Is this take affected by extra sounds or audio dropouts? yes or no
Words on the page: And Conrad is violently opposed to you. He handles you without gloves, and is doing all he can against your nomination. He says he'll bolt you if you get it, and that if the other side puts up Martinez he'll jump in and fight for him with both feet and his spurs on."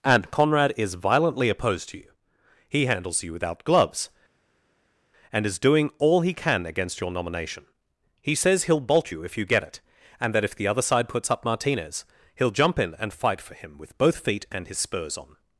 no